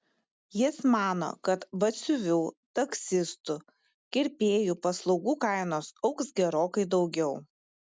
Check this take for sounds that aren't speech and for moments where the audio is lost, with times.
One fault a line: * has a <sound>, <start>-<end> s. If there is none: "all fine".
all fine